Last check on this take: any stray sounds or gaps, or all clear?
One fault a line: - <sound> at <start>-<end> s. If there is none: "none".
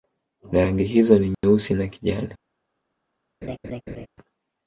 - dropout at 1.3-1.4 s
- laugh at 3.4-4.1 s